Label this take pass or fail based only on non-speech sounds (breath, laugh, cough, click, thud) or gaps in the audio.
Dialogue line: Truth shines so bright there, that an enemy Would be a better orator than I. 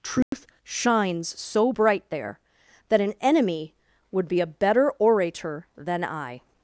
fail